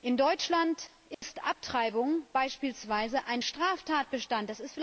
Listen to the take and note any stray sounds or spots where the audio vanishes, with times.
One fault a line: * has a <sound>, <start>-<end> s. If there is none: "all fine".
* has a dropout, 1.1-1.2 s